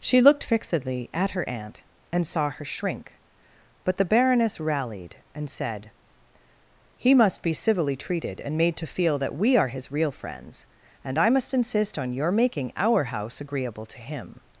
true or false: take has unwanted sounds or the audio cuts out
false